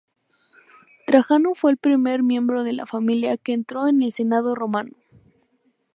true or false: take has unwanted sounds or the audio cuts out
false